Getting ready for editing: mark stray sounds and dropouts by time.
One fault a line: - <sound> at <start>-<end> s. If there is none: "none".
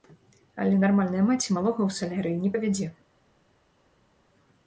none